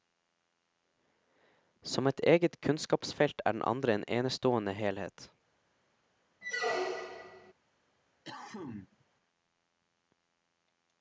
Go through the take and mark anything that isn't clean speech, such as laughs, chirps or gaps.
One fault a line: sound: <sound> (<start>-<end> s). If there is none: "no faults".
sound: squeak (6.4-7.5 s)
sound: cough (8.2-9.0 s)